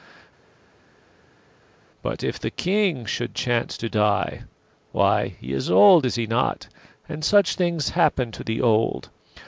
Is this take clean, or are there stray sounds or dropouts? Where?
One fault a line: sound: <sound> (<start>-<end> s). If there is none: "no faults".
no faults